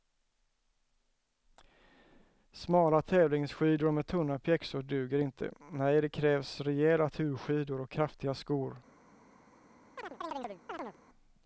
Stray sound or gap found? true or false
true